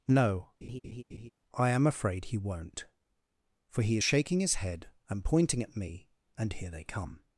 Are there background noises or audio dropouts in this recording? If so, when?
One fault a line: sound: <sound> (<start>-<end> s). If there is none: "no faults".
sound: laugh (0.6-1.3 s)